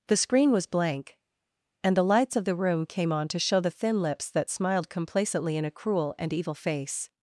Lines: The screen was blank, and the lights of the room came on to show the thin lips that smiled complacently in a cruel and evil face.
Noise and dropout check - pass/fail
pass